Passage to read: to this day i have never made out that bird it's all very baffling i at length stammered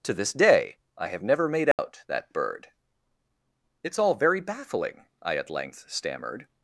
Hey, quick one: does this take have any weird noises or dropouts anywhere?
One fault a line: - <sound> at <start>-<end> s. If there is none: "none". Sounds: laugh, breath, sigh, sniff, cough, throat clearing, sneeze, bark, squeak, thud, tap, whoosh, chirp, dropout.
- dropout at 1.7-1.8 s